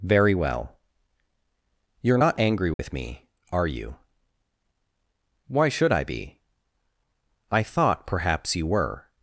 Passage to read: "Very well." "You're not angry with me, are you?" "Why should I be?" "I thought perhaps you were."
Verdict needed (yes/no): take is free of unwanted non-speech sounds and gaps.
no